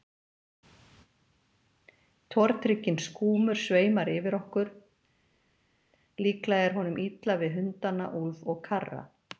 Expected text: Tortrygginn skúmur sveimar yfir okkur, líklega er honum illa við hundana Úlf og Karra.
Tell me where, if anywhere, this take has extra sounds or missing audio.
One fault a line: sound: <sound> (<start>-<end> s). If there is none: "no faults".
no faults